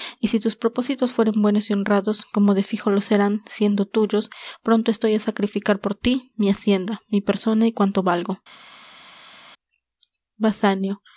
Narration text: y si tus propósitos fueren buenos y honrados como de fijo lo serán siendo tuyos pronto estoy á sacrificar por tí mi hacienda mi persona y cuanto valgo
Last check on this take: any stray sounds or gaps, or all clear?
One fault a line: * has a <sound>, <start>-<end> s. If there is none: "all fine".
all fine